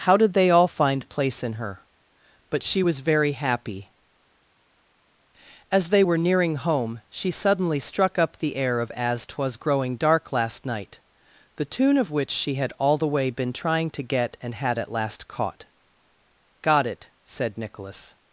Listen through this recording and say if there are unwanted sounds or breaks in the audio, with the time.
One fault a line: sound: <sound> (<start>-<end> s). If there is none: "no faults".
no faults